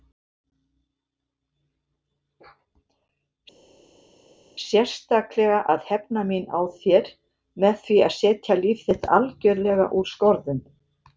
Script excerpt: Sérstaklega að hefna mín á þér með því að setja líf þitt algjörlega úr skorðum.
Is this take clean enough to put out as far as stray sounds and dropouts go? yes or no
yes